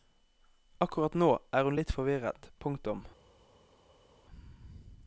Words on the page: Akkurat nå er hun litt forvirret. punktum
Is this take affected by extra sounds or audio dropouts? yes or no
no